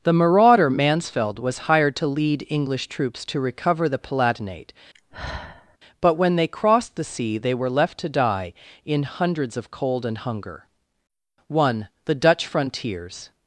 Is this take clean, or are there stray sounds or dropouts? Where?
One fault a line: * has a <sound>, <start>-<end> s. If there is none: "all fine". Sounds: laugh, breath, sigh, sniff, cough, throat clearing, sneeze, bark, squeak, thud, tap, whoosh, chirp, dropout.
* has a sigh, 4.9-5.8 s